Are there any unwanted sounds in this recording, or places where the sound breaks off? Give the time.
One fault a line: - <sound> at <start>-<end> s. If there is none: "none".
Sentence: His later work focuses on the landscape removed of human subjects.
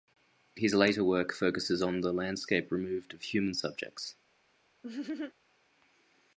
- laugh at 4.8-5.3 s